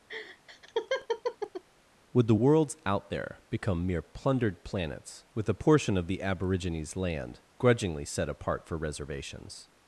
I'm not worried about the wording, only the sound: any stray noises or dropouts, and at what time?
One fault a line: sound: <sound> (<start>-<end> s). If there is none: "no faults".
sound: laugh (0.1-1.6 s)